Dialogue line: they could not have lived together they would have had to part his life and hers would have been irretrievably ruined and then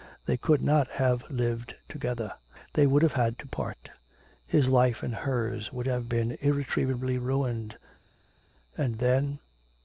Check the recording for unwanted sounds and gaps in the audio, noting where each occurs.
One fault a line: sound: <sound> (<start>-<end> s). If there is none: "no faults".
no faults